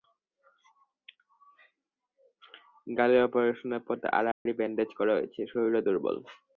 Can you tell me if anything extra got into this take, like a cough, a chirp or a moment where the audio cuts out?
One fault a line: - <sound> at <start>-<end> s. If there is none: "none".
- dropout at 4.3-4.5 s